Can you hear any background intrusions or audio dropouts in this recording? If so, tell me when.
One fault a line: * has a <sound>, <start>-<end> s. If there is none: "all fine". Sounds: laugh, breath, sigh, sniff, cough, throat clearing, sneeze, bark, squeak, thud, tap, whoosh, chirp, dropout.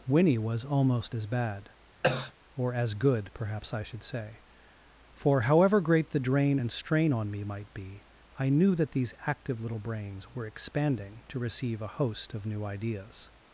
* has a cough, 2.0-2.3 s